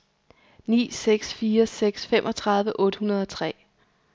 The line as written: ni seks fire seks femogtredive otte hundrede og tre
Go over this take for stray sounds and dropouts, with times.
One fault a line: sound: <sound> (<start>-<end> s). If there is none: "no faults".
no faults